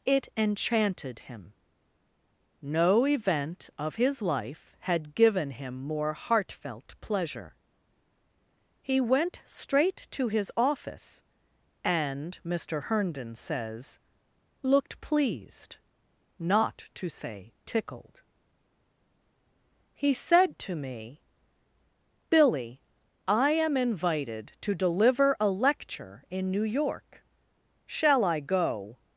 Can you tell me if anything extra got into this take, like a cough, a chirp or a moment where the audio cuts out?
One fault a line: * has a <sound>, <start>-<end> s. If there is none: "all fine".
all fine